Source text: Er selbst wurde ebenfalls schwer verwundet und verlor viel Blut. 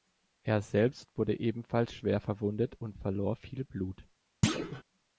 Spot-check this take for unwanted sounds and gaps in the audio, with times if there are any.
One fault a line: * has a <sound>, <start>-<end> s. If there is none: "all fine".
* has a thud, 4.4-4.8 s